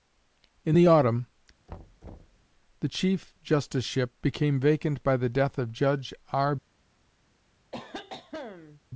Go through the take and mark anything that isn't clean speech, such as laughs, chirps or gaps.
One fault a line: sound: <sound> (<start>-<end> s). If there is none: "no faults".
sound: thud (1.7-2.4 s)
sound: cough (7.7-8.8 s)